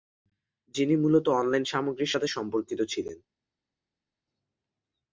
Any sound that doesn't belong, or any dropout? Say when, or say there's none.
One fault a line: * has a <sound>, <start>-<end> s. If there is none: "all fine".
all fine